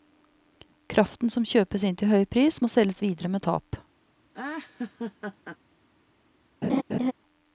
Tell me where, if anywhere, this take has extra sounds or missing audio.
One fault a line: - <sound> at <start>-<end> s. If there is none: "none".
- laugh at 4.3-5.6 s
- laugh at 6.6-7.1 s